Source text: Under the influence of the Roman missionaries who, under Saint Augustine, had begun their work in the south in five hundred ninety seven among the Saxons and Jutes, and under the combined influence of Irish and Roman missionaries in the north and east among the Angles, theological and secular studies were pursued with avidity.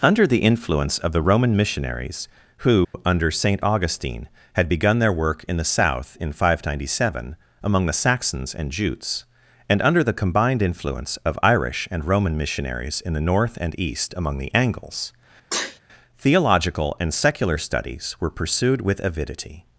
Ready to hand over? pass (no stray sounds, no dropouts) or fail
fail